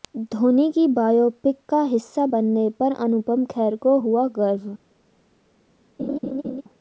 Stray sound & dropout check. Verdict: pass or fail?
fail